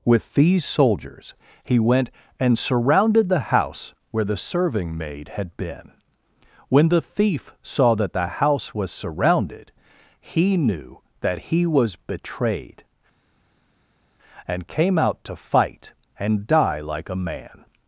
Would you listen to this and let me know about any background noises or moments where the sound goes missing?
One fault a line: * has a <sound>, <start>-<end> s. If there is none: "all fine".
all fine